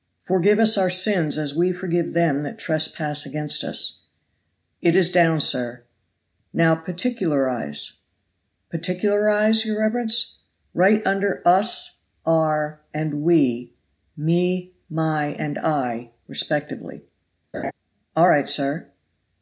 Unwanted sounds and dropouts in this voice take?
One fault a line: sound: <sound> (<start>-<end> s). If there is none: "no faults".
sound: laugh (17.5-17.7 s)